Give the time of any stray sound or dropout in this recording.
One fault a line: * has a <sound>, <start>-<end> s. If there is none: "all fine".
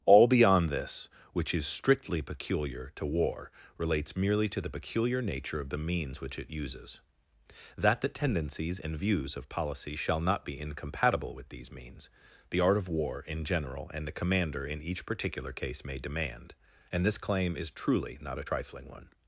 all fine